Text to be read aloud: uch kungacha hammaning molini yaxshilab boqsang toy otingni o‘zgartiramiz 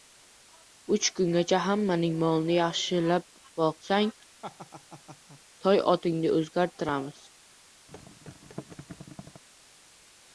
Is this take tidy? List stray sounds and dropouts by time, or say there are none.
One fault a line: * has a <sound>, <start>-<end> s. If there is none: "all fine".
* has a laugh, 4.4-5.4 s
* has a thud, 7.9-9.4 s